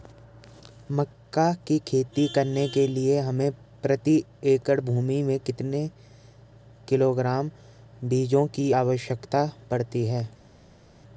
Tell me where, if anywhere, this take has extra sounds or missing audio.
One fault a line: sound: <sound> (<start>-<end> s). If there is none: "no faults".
no faults